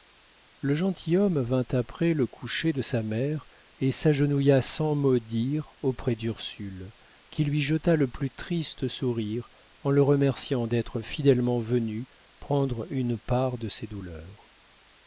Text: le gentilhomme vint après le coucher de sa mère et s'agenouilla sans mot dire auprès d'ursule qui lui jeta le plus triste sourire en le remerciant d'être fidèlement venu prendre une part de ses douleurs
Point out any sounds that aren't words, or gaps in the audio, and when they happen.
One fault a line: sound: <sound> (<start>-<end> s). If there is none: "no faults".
no faults